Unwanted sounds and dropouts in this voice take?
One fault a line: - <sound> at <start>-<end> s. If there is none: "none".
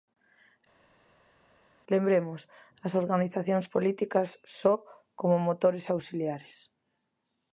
none